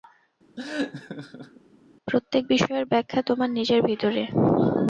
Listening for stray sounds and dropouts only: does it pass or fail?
fail